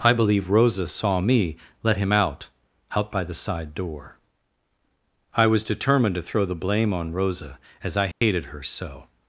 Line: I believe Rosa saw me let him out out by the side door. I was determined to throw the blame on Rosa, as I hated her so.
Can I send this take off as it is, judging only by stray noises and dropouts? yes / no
no